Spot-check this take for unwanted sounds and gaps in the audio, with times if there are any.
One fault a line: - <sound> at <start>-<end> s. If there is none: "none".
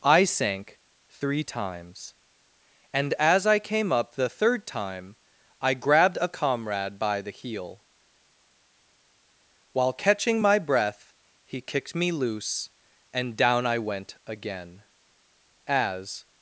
none